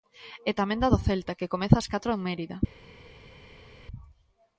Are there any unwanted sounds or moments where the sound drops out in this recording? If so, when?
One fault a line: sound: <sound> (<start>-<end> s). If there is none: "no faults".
no faults